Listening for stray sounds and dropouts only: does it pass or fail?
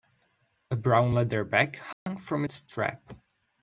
fail